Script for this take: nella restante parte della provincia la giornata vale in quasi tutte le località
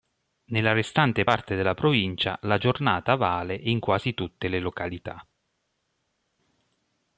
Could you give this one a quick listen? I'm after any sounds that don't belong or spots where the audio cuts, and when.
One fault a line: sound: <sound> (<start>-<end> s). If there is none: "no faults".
no faults